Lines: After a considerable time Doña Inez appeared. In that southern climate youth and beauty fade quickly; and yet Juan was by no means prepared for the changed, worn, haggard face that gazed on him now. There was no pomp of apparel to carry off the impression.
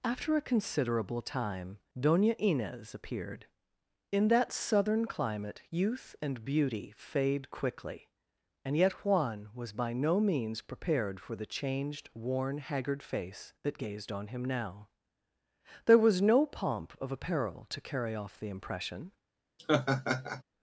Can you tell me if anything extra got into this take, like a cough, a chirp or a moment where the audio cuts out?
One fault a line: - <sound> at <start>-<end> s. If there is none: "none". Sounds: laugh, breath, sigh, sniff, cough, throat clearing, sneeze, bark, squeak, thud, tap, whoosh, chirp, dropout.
- laugh at 19.6-20.4 s